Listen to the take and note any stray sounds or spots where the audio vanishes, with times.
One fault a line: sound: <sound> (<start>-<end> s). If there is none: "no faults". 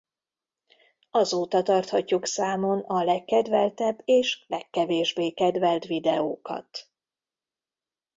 no faults